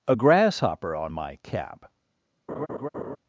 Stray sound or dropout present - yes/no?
yes